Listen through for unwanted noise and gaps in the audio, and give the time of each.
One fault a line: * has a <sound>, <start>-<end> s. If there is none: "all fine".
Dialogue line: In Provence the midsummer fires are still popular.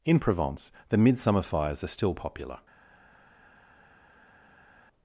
all fine